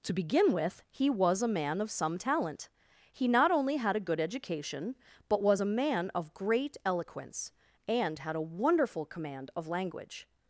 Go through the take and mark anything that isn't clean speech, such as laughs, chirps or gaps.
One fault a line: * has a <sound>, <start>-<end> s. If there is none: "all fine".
all fine